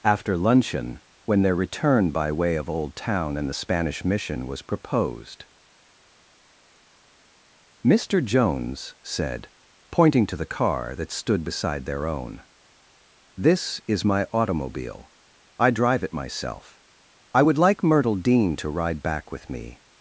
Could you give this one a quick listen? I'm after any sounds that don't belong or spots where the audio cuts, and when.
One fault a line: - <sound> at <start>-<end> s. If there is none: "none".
none